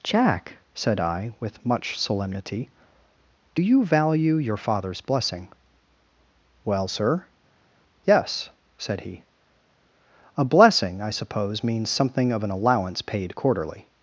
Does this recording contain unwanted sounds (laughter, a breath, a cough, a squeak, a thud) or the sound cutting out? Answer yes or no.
no